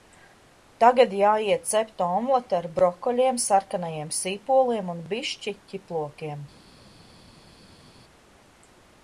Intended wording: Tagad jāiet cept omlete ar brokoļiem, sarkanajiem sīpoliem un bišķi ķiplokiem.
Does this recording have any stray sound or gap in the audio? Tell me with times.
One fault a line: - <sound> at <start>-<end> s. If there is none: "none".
none